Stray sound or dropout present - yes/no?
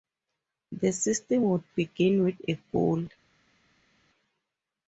no